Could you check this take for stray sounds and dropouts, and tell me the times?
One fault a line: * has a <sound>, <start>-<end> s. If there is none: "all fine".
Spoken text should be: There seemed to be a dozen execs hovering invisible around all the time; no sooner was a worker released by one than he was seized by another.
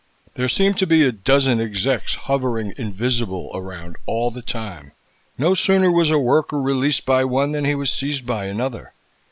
all fine